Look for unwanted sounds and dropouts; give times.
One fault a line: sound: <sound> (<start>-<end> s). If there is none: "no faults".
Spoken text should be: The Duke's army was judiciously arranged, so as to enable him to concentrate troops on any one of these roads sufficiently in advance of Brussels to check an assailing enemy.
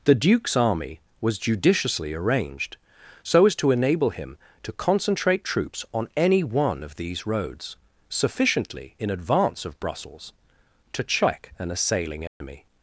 sound: dropout (12.3-12.4 s)